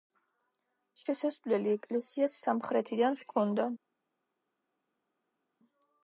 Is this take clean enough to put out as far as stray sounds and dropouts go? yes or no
yes